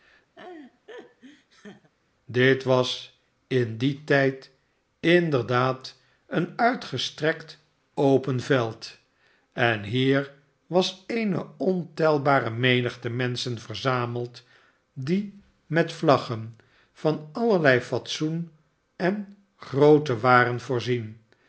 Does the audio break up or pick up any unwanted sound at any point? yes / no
yes